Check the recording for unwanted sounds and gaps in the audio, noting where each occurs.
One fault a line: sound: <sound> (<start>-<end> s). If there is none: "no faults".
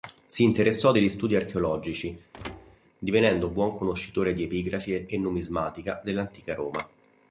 sound: thud (2.3-2.8 s)